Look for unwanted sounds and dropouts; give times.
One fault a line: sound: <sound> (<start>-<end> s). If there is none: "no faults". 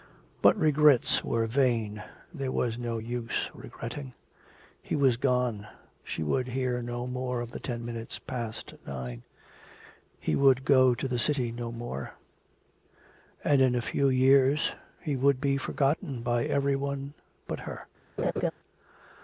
sound: laugh (18.2-18.5 s)